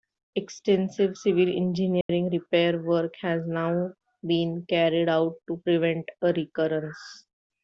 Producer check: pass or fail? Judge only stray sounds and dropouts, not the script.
fail